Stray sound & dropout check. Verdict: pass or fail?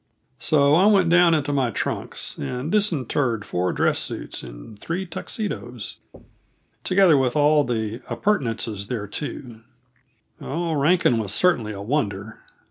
fail